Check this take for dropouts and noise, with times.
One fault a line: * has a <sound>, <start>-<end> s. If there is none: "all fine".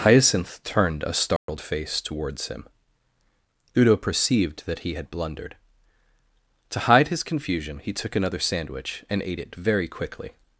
* has a dropout, 1.4-1.5 s